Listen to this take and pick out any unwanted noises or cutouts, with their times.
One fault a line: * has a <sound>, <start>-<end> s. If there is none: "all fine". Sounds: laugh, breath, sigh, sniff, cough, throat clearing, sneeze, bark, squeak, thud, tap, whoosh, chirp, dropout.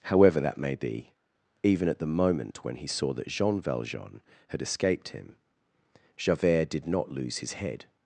all fine